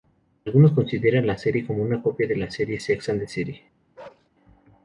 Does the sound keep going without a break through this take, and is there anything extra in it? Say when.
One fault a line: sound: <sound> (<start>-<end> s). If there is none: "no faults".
sound: bark (4.0-4.3 s)